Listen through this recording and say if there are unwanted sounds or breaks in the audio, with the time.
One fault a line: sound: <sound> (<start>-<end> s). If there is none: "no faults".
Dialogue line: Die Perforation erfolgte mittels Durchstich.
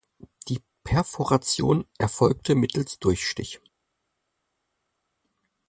no faults